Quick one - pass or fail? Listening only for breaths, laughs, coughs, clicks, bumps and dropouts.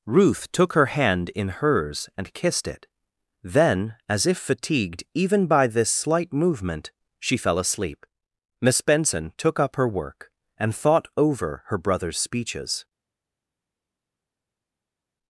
pass